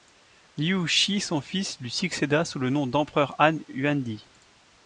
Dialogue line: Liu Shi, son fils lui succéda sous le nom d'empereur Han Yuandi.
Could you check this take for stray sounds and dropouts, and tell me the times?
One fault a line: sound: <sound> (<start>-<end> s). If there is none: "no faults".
no faults